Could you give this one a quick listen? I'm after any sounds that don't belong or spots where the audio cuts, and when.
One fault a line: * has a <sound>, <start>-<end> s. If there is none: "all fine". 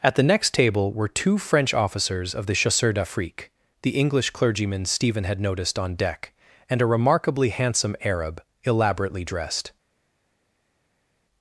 all fine